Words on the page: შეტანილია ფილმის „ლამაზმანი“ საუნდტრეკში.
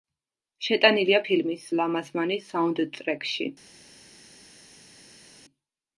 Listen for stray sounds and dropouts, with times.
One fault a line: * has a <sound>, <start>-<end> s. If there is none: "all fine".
all fine